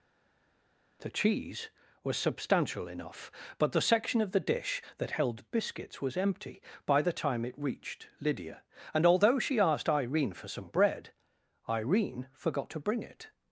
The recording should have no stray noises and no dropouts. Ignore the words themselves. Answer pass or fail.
pass